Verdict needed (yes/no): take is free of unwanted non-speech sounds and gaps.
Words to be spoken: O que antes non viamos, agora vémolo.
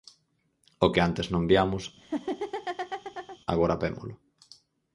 no